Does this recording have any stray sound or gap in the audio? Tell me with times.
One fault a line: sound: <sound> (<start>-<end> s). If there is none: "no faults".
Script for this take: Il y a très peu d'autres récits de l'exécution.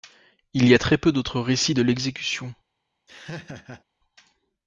sound: laugh (3.1-3.8 s)